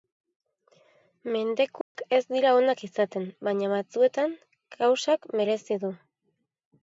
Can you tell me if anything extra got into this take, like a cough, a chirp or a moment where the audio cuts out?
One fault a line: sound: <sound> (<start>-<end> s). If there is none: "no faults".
sound: dropout (1.8-2.0 s)